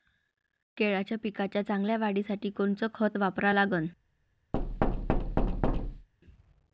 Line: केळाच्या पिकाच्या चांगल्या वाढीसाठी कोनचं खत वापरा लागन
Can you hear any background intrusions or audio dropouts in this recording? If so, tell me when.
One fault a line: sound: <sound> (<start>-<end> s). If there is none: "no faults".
sound: thud (4.5-6.1 s)